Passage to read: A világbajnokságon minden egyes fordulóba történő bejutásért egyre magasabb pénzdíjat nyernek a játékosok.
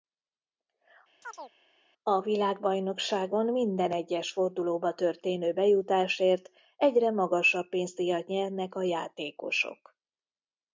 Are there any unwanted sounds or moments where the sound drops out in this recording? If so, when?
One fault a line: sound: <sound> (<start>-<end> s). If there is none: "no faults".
sound: chirp (1.2-1.5 s)